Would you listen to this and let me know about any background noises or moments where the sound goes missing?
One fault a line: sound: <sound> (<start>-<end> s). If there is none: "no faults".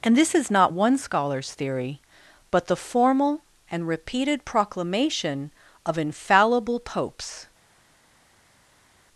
no faults